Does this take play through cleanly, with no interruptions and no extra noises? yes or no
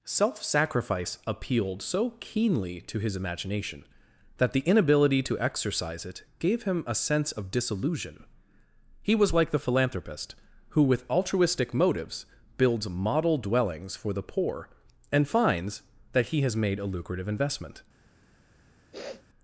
no